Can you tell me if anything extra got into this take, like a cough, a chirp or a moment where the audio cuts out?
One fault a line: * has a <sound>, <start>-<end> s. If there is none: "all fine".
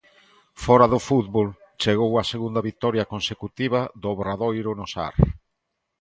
all fine